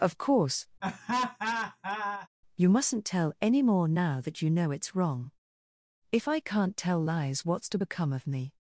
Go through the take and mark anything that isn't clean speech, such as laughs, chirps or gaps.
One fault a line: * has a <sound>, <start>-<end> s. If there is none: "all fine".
* has a laugh, 0.8-2.3 s